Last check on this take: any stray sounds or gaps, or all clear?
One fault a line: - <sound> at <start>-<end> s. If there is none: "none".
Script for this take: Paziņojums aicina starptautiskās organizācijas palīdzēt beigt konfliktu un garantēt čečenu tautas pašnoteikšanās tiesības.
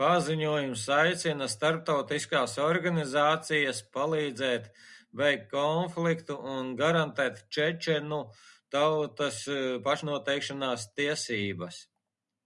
none